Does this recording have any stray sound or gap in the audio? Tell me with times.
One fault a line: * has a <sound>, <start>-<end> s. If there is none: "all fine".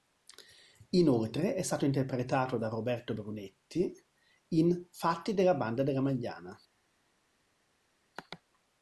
all fine